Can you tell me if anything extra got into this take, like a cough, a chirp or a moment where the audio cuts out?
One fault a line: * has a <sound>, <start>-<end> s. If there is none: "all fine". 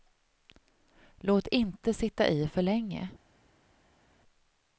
all fine